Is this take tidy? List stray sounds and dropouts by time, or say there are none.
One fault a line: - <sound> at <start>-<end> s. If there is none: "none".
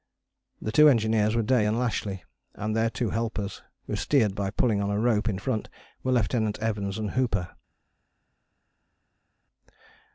none